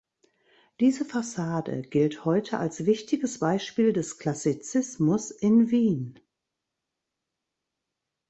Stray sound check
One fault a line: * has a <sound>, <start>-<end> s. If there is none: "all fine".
all fine